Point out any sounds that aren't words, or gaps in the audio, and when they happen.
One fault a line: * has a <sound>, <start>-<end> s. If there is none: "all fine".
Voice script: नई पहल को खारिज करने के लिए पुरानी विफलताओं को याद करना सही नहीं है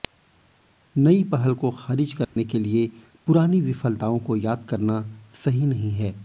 * has a dropout, 2.2-2.4 s